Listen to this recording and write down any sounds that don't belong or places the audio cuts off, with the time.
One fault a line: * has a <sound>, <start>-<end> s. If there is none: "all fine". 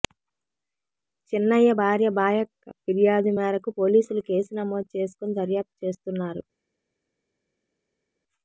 all fine